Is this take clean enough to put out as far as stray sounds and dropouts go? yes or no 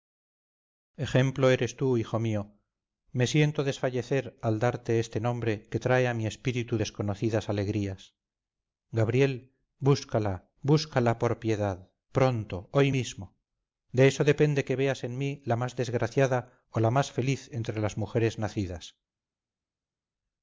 yes